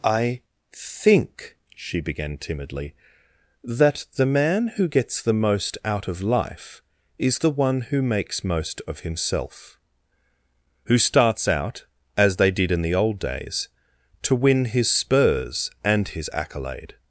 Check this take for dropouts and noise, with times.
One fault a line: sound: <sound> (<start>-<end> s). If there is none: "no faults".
no faults